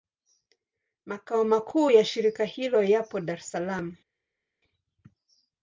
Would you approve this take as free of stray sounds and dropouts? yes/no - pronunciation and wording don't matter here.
yes